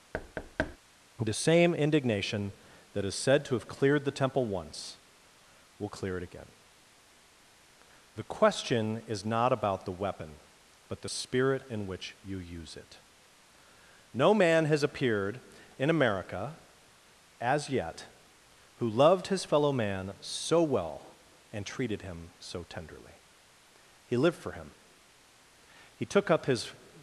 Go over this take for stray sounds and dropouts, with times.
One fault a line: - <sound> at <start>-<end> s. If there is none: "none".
- thud at 0.1-0.8 s